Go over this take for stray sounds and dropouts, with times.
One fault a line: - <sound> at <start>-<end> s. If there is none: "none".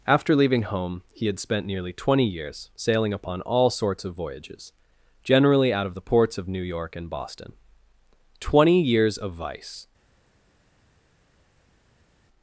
none